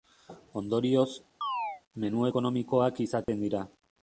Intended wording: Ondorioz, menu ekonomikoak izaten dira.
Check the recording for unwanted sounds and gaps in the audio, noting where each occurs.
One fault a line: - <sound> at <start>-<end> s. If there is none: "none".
- chirp at 1.4-1.8 s
- dropout at 3.2-3.3 s